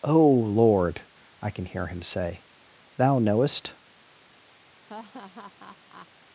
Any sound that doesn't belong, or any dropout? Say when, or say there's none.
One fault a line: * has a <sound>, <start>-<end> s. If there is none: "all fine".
* has a laugh, 4.8-6.1 s